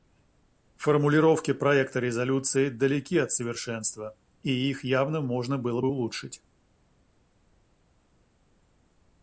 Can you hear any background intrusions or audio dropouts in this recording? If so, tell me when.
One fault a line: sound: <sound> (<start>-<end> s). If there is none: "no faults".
no faults